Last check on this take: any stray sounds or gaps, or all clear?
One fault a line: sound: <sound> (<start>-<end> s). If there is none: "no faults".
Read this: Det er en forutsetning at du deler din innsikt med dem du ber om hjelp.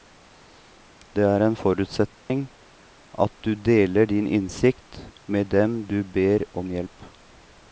sound: dropout (2.2-2.3 s)